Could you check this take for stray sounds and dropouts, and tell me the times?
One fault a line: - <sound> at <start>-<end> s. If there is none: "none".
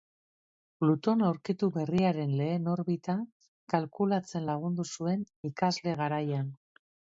none